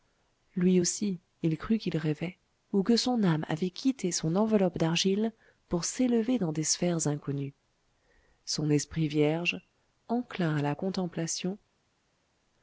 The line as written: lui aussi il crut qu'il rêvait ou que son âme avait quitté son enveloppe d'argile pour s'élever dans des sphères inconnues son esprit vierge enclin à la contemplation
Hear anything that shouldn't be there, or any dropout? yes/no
no